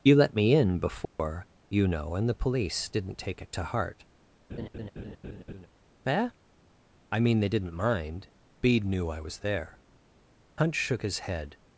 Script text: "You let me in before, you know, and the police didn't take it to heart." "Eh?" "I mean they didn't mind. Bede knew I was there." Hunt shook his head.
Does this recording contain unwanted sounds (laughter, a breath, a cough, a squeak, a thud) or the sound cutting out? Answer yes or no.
yes